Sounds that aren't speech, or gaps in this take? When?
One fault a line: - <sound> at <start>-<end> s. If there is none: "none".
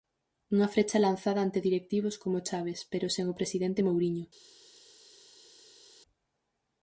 none